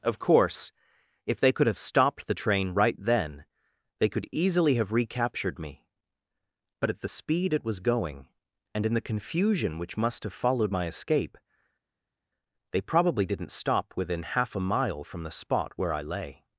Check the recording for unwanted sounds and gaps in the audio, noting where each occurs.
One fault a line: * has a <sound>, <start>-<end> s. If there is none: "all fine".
all fine